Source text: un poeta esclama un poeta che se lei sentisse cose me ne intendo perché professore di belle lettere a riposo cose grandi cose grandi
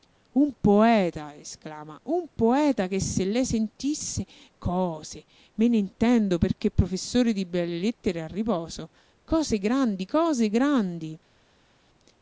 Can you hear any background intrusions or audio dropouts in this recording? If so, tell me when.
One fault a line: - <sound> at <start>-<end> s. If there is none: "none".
none